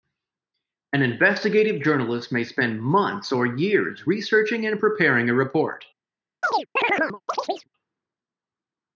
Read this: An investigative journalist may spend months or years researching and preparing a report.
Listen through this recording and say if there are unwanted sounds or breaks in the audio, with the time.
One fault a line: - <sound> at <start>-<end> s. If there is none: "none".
- chirp at 6.4-7.7 s